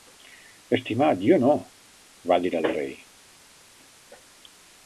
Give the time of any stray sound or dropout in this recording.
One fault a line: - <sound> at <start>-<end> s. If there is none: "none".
none